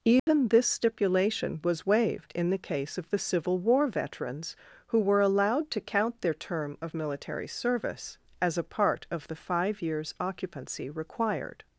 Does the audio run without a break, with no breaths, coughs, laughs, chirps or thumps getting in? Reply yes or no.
no